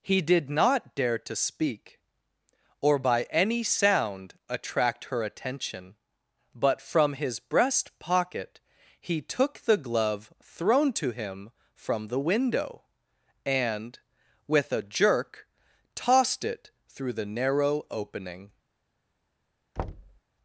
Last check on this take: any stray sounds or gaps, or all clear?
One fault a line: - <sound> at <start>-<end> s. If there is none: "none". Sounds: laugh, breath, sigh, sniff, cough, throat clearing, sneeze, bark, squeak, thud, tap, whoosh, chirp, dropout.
- thud at 19.8-20.2 s